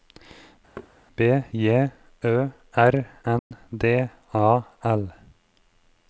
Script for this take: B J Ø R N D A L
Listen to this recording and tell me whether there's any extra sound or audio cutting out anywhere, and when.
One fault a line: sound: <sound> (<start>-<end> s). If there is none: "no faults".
sound: thud (0.8-0.9 s)
sound: dropout (3.4-3.5 s)